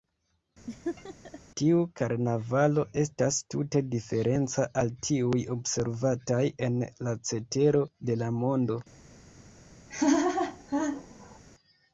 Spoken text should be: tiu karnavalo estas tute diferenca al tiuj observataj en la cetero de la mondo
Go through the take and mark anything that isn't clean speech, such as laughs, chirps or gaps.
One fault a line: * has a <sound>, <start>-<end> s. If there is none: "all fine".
* has a laugh, 0.7-1.4 s
* has a laugh, 9.9-11.4 s